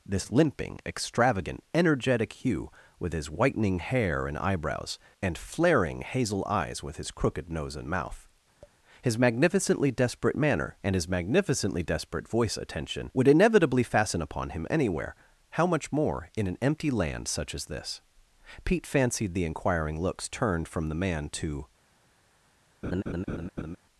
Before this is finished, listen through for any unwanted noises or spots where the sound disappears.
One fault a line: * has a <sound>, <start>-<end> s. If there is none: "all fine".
* has a tap, 8.6-8.8 s
* has a laugh, 22.8-23.8 s